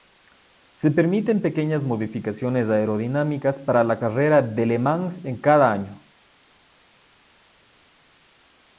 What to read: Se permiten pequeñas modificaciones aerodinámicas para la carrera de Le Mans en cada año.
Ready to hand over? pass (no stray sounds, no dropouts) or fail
pass